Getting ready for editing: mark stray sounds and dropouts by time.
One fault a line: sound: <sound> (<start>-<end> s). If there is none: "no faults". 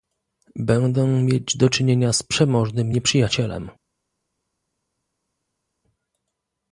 no faults